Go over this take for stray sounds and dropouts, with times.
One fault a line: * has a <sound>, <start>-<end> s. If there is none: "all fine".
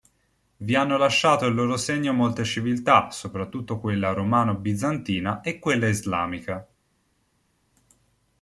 all fine